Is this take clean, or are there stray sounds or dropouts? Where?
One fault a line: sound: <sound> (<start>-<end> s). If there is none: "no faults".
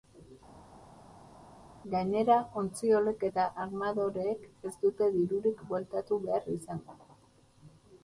no faults